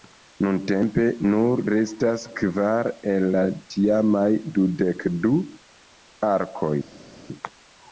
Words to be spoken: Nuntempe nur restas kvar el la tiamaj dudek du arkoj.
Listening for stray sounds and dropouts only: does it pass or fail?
pass